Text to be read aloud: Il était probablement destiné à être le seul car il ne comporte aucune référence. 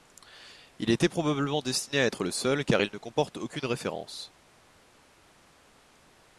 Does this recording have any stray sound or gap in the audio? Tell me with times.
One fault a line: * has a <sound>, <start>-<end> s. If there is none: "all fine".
all fine